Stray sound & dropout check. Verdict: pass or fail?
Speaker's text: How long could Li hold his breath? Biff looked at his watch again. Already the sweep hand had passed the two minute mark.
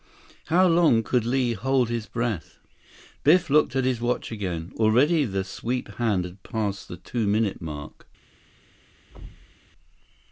fail